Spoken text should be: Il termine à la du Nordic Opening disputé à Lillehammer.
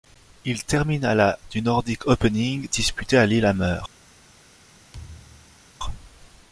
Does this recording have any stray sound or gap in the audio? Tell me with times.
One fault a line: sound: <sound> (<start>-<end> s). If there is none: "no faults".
sound: thud (4.9-5.6 s)